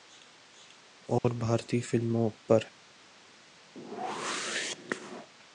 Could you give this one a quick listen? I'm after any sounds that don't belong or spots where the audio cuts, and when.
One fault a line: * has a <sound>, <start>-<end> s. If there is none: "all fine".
* has a dropout, 1.2-1.2 s
* has a whoosh, 3.8-5.3 s